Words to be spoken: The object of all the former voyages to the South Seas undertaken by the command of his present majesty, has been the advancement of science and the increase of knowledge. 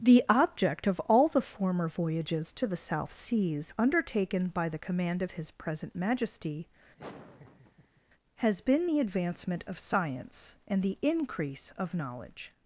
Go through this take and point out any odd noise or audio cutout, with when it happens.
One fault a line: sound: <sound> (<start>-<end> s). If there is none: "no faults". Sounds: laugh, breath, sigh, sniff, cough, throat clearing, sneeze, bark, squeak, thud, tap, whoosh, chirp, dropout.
sound: laugh (7.0-8.0 s)